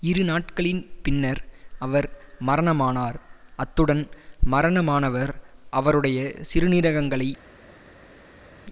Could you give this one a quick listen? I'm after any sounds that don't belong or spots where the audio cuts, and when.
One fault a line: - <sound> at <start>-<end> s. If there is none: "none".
none